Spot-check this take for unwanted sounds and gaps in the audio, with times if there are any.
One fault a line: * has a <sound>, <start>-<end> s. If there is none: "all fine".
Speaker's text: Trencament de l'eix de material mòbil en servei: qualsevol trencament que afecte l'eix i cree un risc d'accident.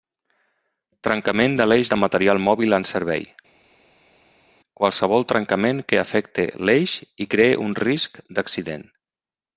all fine